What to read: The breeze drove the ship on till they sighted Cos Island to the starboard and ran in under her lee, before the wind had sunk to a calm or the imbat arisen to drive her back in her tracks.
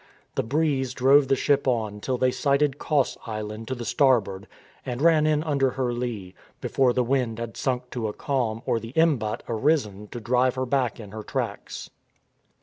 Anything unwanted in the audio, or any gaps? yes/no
no